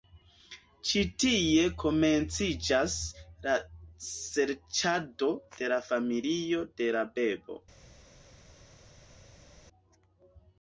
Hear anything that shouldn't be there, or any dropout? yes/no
no